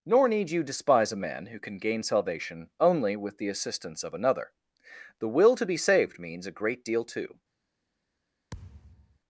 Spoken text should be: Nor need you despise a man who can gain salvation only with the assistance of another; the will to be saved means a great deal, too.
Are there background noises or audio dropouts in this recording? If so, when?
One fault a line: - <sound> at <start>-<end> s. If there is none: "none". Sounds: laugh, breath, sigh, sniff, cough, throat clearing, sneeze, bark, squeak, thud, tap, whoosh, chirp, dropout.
- thud at 8.5-9.2 s